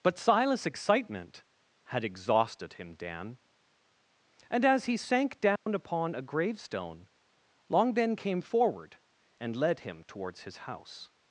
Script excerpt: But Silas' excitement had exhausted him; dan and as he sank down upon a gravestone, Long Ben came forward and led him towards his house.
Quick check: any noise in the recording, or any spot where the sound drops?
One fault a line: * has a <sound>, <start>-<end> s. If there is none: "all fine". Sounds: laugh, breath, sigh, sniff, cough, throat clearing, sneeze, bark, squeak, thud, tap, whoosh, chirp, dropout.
* has a dropout, 5.6-5.7 s